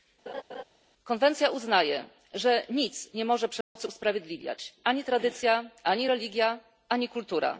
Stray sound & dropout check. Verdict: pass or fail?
fail